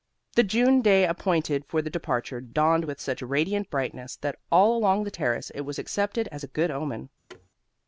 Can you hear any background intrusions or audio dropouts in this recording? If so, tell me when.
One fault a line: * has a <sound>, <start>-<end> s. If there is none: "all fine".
* has a thud, 7.3-7.5 s